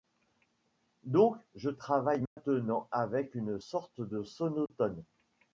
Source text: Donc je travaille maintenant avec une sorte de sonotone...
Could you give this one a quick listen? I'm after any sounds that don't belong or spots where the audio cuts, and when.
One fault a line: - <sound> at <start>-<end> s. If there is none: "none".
- dropout at 2.3-2.4 s
- dropout at 4.7-4.7 s